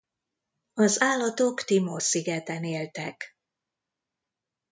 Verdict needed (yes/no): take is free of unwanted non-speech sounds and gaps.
yes